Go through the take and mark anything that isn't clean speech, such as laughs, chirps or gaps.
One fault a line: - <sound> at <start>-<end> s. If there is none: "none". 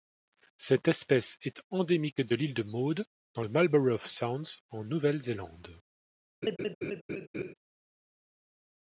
- laugh at 6.4-7.5 s